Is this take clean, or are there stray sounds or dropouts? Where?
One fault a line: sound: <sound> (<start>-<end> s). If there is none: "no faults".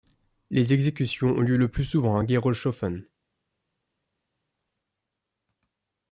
no faults